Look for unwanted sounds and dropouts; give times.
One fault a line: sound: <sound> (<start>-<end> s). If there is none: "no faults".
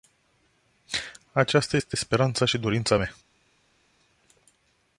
no faults